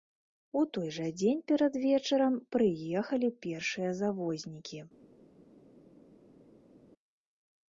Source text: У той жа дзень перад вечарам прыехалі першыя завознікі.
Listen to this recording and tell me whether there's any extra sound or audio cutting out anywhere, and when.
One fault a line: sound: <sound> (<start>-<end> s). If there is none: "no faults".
no faults